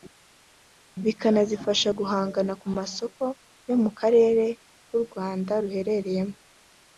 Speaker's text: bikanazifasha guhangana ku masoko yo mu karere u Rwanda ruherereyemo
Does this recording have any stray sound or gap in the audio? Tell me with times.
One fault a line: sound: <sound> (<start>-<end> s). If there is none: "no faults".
no faults